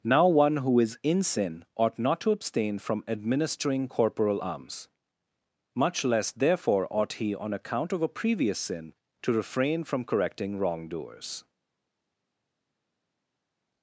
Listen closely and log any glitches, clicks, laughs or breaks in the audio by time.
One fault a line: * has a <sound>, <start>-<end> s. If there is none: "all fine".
all fine